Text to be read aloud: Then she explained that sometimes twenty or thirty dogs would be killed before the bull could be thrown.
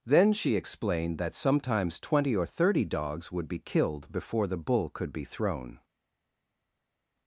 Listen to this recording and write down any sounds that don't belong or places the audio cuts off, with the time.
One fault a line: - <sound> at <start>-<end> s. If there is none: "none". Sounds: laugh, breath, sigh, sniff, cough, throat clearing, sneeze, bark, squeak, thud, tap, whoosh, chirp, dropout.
none